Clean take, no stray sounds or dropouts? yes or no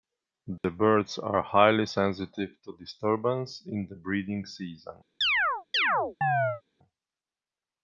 no